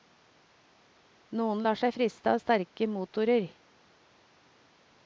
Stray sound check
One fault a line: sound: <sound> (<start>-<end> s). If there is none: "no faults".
no faults